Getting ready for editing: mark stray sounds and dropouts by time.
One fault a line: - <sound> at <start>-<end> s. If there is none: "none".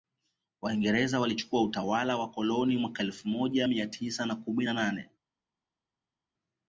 none